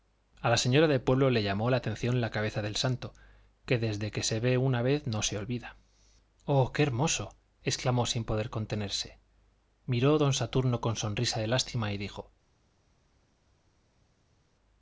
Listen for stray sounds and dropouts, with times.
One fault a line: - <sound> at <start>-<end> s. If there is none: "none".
none